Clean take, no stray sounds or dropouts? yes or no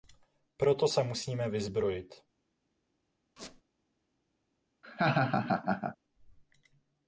no